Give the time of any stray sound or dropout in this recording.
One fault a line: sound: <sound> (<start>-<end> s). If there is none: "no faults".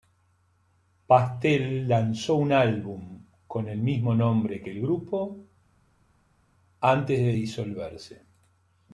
no faults